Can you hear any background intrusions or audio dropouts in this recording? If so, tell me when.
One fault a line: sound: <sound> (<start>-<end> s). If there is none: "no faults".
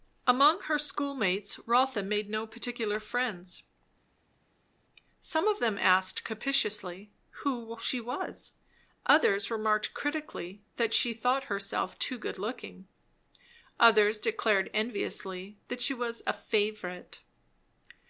no faults